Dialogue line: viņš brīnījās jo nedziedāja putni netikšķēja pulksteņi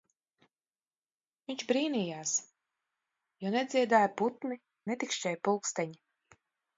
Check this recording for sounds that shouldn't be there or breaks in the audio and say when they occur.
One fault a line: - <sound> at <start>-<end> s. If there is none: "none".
none